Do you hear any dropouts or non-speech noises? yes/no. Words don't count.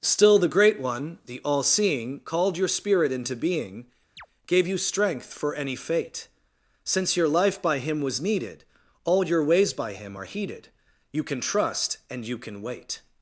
yes